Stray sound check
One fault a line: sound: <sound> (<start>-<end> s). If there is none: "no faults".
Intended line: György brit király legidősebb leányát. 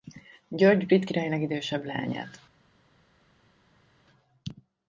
no faults